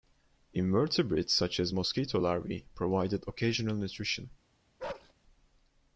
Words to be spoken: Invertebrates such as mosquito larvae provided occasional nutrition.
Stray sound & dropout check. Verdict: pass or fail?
fail